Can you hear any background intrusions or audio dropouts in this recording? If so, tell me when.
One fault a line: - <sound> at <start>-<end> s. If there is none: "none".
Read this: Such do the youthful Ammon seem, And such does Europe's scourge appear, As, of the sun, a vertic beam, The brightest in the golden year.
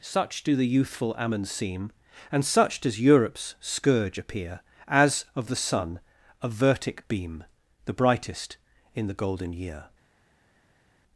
none